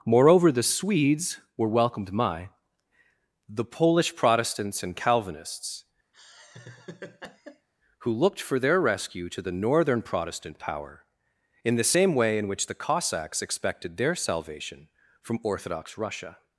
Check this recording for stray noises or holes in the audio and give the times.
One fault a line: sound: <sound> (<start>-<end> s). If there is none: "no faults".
sound: laugh (6.1-7.7 s)